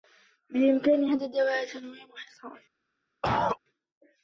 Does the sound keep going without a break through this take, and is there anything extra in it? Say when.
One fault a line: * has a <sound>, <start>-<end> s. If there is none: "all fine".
* has a cough, 3.2-3.6 s